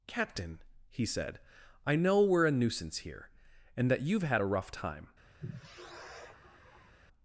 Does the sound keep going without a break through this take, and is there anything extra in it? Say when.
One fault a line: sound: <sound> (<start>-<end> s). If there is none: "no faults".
sound: sigh (5.4-6.9 s)